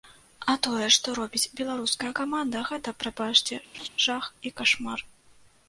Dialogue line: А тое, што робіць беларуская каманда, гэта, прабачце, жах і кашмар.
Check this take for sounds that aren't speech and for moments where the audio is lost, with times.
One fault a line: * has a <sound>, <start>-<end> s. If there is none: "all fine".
* has a laugh, 3.7-3.9 s